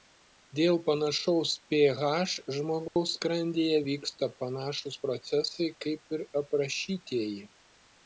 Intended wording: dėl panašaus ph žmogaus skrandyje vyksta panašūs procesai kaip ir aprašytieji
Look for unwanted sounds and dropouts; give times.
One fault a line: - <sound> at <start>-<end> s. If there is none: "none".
- dropout at 2.9-3.0 s